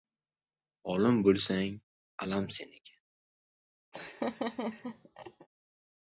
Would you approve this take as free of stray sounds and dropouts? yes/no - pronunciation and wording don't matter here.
no